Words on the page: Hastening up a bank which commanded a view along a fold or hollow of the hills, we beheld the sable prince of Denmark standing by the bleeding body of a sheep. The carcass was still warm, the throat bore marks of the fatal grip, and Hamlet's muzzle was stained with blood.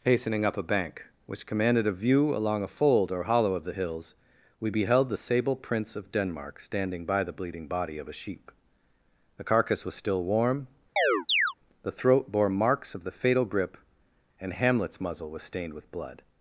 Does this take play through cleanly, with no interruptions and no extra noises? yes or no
no